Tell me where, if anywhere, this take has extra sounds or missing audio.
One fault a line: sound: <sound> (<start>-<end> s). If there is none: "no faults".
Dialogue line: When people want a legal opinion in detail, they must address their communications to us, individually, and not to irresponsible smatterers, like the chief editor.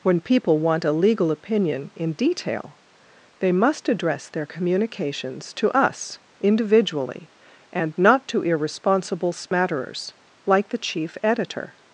sound: dropout (9.5-9.5 s)